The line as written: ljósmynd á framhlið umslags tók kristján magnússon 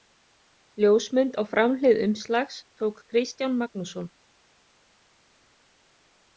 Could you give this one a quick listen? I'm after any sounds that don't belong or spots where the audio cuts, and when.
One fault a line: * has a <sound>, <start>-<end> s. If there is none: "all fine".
all fine